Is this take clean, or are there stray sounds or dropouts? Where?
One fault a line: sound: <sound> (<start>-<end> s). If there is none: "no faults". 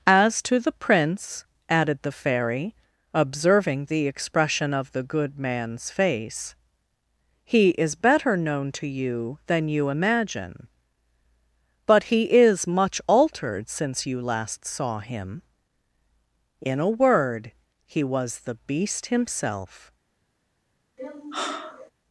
sound: sigh (21.0-21.9 s)